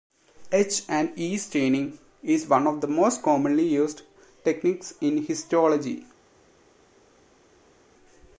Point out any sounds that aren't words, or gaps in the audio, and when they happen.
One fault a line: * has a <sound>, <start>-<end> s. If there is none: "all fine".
all fine